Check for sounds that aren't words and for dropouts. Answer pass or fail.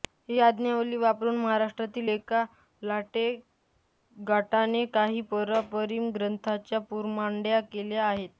pass